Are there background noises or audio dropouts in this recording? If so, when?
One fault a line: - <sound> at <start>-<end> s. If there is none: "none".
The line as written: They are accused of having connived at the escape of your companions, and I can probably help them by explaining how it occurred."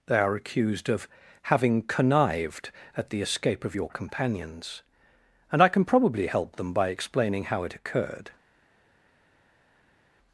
none